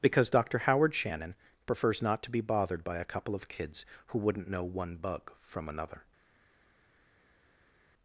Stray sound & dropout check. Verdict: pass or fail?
pass